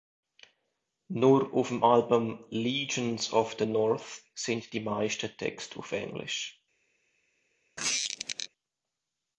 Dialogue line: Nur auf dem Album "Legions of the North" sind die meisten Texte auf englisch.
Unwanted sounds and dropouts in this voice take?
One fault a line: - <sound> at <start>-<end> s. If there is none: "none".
- squeak at 7.8-8.5 s